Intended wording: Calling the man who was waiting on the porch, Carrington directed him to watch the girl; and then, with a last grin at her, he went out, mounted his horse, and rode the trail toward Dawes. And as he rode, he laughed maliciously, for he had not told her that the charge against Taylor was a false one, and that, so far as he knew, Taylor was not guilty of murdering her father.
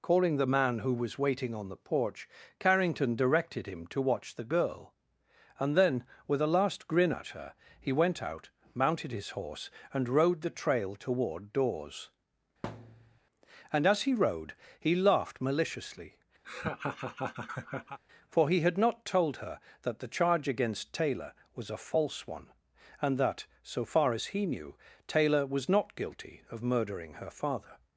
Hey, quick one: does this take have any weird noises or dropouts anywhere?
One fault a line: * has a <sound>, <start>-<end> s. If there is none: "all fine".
* has a thud, 12.6-13.2 s
* has a laugh, 16.4-18.0 s